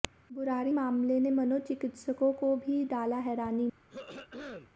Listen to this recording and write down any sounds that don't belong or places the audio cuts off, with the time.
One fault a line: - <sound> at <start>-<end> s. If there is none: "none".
- throat clearing at 3.9-4.7 s